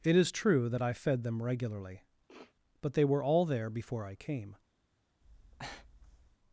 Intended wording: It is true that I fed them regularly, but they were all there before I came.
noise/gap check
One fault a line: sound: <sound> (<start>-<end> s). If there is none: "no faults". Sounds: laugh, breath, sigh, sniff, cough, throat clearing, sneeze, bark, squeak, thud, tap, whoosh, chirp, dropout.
sound: sniff (2.3-2.6 s)
sound: breath (5.2-6.4 s)